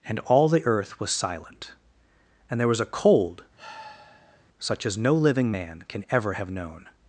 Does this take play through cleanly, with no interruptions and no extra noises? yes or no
no